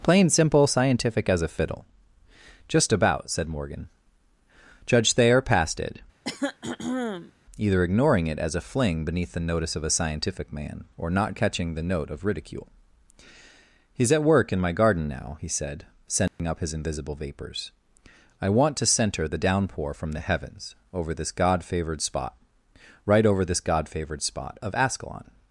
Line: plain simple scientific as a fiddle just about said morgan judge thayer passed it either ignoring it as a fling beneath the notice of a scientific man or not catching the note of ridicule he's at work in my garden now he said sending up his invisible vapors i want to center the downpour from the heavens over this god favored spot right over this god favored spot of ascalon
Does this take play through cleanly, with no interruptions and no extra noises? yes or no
no